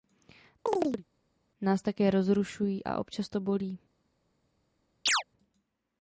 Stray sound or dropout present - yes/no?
yes